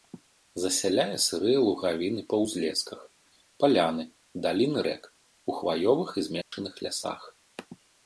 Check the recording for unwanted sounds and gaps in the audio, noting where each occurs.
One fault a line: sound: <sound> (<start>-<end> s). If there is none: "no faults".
sound: dropout (6.4-6.5 s)